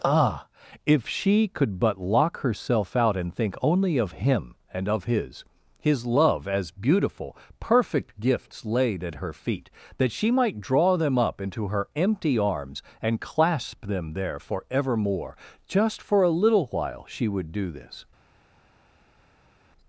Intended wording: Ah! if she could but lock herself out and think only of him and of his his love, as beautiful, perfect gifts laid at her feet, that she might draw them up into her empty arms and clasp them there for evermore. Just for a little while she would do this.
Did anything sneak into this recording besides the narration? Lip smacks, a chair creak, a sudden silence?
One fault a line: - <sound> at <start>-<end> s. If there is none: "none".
none